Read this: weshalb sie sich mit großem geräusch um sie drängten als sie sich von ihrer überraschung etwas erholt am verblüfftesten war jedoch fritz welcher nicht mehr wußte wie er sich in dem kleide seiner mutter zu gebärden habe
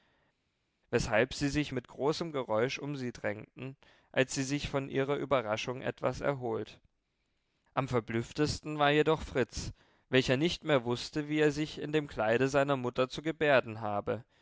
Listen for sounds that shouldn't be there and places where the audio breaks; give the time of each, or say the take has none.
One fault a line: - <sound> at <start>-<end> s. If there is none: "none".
none